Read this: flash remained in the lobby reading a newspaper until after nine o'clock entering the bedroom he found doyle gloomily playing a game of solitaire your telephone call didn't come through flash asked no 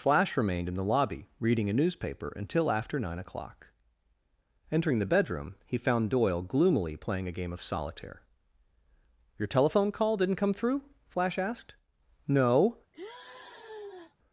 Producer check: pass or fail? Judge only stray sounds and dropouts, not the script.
fail